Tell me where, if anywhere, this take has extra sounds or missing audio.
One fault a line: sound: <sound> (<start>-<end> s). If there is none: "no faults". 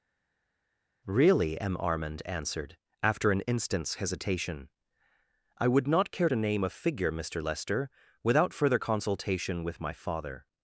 no faults